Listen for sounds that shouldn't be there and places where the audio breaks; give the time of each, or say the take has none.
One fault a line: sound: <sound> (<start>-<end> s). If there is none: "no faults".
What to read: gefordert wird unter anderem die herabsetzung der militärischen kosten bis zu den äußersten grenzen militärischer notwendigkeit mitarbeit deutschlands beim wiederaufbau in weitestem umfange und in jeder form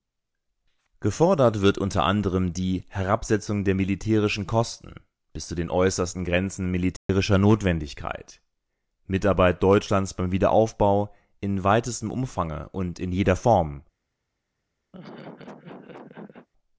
sound: dropout (7.0-7.1 s)
sound: laugh (14.9-16.5 s)